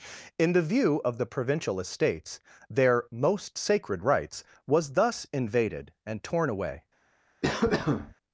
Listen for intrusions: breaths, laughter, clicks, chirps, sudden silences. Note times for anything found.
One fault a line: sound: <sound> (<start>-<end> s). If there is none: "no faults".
sound: cough (7.4-8.1 s)